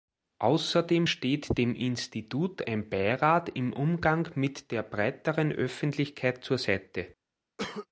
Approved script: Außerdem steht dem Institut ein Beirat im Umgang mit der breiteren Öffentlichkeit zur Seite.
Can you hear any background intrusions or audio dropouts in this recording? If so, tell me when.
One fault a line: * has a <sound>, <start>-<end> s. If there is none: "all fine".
* has a cough, 7.6-7.9 s